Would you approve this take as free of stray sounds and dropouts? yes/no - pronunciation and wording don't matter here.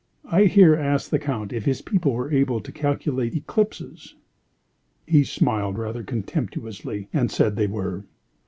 yes